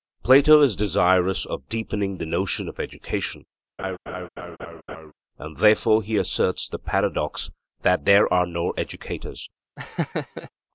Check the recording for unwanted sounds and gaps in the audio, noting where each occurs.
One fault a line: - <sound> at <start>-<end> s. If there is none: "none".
- laugh at 3.8-5.1 s
- laugh at 9.8-10.5 s